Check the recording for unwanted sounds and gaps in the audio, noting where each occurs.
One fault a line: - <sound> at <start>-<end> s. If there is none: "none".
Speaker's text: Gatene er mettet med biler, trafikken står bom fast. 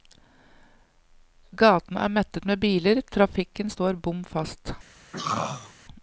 - throat clearing at 5.1-5.7 s